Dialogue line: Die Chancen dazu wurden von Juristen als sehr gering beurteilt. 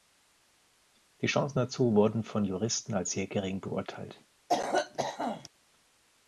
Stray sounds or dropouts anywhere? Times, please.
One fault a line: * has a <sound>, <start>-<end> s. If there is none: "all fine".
* has a cough, 4.5-5.5 s